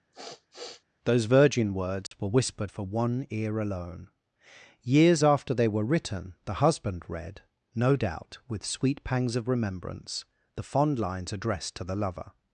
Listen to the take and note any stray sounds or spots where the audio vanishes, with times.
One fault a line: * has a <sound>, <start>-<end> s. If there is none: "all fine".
* has a sniff, 0.1-0.8 s
* has a dropout, 2.1-2.1 s